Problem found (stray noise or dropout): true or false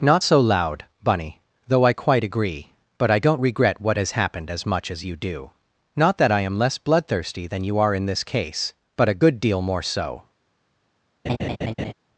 true